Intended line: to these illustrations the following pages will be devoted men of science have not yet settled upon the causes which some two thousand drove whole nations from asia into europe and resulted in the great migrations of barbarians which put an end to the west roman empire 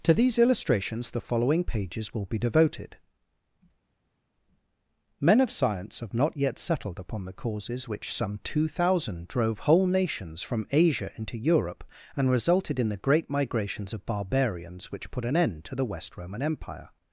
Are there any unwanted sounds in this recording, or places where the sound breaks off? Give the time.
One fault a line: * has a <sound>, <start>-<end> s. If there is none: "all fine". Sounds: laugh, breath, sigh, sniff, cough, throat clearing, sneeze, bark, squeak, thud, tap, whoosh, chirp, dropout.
all fine